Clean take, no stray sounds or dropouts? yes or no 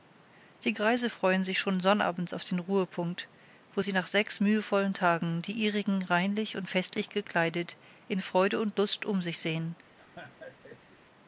no